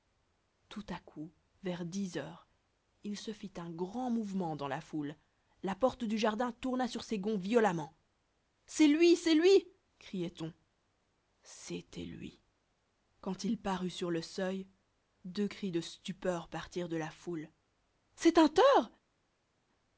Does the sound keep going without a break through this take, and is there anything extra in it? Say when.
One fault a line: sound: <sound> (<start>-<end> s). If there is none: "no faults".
no faults